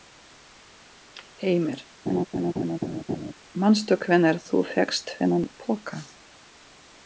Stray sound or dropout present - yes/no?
yes